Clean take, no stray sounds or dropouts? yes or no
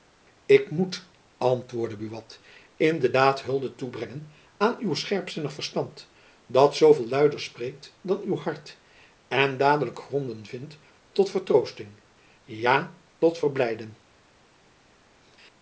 yes